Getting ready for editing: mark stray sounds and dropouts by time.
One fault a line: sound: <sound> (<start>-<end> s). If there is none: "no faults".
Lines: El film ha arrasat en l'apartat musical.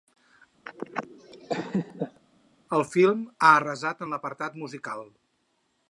sound: laugh (0.7-2.2 s)